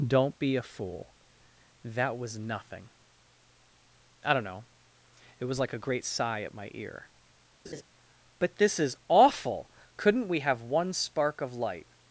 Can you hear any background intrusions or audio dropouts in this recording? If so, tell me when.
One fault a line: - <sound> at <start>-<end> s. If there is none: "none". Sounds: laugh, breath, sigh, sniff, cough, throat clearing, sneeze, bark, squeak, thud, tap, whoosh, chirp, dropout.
- laugh at 7.7-7.8 s